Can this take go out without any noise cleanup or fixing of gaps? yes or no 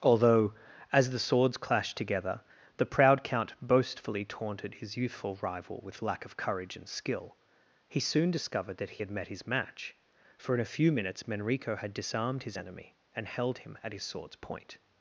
yes